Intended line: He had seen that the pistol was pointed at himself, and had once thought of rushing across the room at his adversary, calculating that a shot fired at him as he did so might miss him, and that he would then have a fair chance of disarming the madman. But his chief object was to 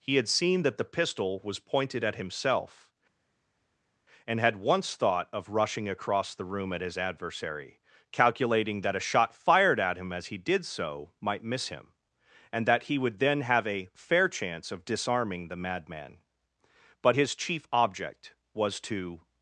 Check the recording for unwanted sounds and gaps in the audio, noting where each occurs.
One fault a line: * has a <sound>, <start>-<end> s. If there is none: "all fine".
all fine